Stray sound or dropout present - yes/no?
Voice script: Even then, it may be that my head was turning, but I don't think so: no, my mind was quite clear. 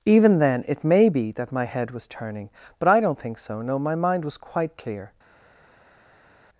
no